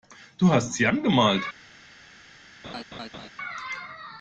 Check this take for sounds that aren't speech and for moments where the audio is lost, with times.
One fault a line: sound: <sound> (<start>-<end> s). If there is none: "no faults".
sound: laugh (2.6-3.3 s)